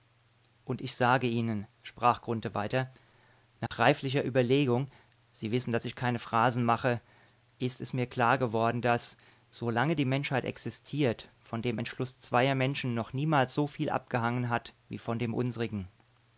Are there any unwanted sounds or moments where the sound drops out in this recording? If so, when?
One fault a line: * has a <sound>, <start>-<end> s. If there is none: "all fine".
* has a dropout, 3.7-3.7 s